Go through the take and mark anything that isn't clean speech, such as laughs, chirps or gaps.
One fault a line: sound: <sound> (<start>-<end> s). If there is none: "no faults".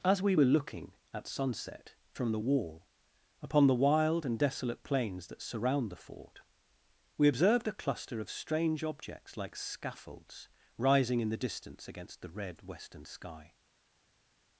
no faults